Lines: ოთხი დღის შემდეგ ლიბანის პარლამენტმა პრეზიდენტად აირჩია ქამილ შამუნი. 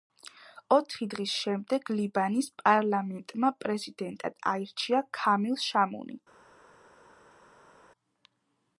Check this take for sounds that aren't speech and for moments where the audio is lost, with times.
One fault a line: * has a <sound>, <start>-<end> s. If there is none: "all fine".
all fine